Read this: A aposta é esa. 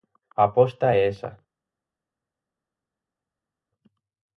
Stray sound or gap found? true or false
false